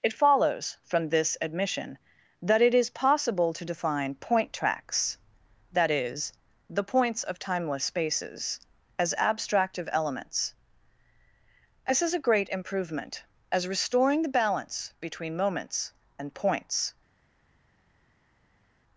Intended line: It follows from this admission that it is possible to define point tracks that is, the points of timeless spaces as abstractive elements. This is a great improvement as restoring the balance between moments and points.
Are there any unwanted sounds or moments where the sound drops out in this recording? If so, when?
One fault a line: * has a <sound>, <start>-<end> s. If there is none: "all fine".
all fine